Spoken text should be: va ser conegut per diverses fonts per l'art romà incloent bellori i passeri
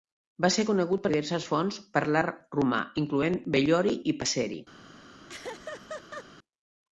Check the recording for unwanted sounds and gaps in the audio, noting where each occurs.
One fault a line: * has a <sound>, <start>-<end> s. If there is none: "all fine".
* has a laugh, 5.3-6.3 s